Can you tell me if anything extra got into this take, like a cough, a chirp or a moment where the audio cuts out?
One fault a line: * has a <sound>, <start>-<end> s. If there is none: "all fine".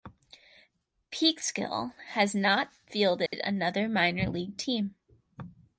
* has a dropout, 3.3-3.3 s